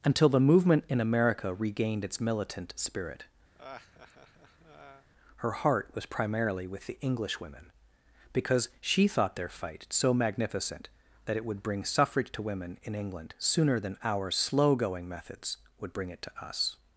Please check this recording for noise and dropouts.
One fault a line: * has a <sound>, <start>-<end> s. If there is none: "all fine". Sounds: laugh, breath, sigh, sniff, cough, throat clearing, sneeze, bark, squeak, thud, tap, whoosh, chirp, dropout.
* has a laugh, 3.5-5.1 s